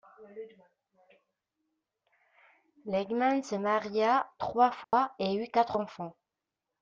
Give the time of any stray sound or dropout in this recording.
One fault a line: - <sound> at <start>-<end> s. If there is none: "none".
- dropout at 4.8-4.9 s